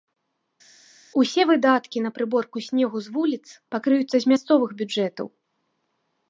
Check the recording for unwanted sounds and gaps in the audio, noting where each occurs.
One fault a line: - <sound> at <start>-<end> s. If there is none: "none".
none